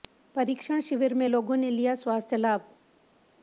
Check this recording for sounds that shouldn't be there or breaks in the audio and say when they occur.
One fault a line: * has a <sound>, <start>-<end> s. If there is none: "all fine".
all fine